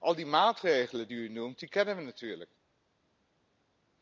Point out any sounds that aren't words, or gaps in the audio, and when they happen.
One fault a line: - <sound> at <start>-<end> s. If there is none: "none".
none